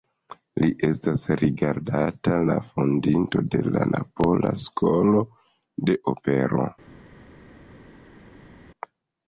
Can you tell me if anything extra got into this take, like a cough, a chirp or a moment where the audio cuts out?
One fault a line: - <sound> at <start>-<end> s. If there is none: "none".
none